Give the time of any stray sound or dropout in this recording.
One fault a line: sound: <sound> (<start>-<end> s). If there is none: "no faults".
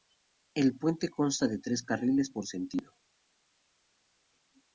no faults